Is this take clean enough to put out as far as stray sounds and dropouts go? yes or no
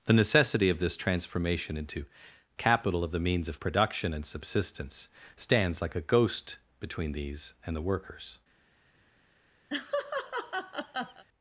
no